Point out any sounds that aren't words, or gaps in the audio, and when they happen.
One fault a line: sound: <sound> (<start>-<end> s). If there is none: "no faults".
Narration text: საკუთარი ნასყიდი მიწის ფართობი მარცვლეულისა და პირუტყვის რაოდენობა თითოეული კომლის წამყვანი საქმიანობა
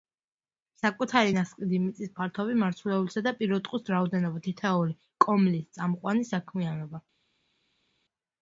no faults